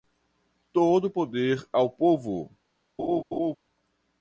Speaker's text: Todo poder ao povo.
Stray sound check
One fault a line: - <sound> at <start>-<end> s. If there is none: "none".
- laugh at 3.0-3.6 s